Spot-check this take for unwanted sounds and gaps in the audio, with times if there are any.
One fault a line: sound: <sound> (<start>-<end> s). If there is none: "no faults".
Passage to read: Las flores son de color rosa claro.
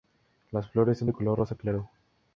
no faults